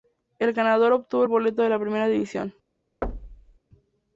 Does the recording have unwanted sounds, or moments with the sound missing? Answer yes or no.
yes